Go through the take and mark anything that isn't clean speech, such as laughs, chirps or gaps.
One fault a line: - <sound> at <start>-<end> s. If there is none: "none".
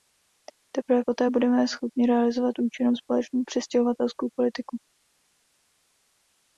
none